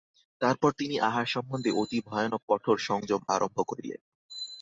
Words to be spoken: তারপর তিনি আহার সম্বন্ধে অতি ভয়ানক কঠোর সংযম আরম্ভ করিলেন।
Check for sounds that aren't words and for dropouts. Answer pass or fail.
pass